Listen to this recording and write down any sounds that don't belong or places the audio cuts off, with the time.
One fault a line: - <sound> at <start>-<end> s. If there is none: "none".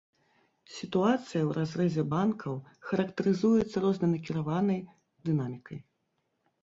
none